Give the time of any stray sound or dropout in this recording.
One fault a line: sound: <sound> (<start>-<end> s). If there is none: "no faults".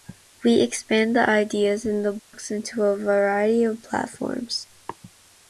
sound: dropout (2.2-2.3 s)